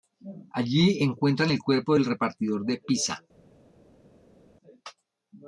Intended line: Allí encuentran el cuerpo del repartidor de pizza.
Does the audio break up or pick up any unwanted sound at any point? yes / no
no